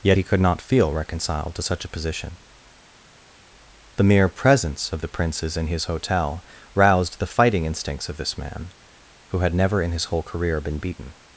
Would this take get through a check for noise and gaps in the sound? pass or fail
pass